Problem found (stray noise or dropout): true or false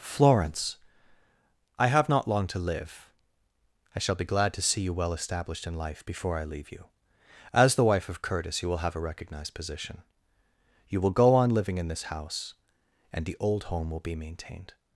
false